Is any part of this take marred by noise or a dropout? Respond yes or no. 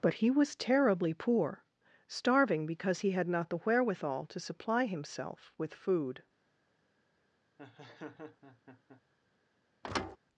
yes